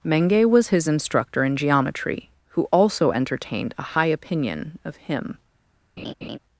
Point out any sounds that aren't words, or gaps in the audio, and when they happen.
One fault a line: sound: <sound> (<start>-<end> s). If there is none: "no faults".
sound: laugh (6.0-6.4 s)